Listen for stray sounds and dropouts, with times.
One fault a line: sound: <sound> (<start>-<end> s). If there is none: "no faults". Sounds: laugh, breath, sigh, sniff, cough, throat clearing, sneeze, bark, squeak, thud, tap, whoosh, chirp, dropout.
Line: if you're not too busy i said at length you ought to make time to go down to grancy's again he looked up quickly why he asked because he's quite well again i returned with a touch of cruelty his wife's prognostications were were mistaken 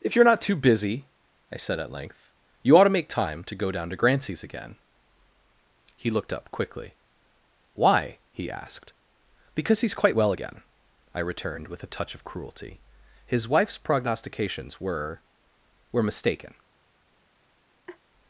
sound: laugh (17.9-18.0 s)